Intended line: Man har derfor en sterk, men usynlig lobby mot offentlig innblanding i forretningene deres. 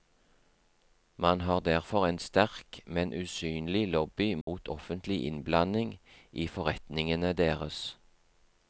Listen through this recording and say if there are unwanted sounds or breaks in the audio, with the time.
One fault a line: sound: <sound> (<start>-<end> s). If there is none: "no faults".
sound: dropout (4.4-4.5 s)